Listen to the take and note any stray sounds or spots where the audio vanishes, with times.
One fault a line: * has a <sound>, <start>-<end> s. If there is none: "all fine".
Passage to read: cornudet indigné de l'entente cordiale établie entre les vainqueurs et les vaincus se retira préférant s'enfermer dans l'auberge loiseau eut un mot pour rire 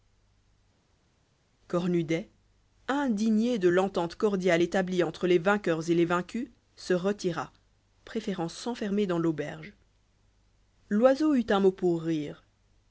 all fine